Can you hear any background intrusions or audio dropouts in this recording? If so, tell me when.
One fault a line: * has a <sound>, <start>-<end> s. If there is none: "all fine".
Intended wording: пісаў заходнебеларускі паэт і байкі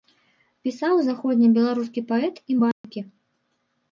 * has a dropout, 2.7-2.8 s